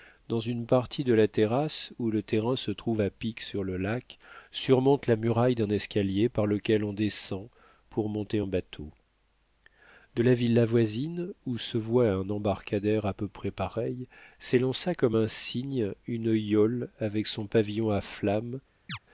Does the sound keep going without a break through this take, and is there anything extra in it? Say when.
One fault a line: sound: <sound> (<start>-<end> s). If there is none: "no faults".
sound: chirp (18.9-19.0 s)